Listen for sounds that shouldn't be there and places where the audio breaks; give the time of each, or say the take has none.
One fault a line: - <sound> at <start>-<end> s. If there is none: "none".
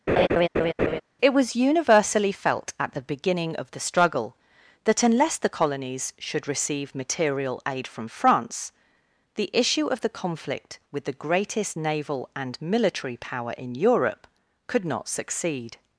- laugh at 0.1-1.0 s